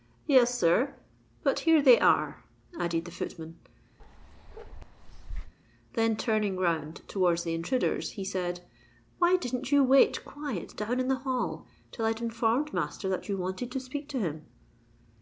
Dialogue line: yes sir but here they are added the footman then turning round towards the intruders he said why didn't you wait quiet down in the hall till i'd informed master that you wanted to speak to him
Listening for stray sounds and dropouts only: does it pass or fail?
fail